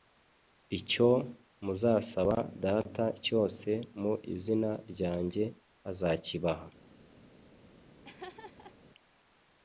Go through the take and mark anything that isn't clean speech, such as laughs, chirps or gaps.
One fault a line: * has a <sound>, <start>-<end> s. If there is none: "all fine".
* has a laugh, 8.0-8.8 s